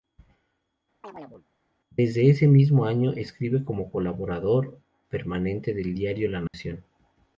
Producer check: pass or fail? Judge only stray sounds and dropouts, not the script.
fail